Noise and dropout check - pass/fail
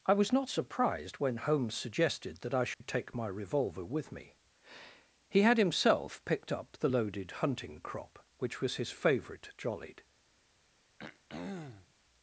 fail